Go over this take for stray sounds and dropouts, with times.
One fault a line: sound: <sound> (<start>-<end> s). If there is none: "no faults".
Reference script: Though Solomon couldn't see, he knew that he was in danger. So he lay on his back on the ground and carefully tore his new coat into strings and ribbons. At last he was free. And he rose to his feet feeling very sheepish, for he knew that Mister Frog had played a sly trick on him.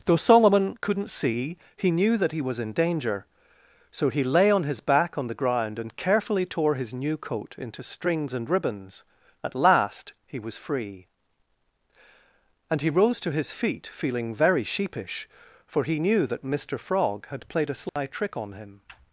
sound: dropout (17.9-18.0 s)